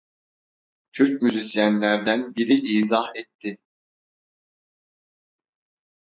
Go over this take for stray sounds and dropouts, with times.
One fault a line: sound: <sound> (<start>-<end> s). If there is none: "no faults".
no faults